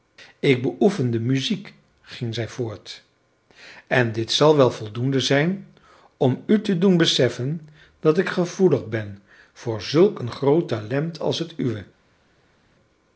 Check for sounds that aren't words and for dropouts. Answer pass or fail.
pass